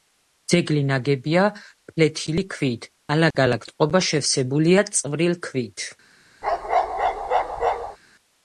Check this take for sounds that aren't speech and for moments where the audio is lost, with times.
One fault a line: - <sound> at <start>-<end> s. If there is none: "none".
- dropout at 3.3-3.3 s
- bark at 6.4-8.0 s